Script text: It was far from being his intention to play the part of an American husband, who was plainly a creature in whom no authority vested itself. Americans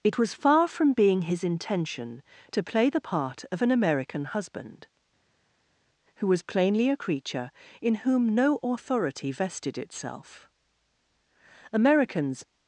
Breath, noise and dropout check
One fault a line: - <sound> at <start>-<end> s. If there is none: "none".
none